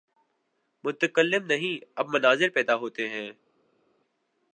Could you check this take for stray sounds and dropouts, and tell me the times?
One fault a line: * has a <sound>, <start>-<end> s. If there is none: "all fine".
all fine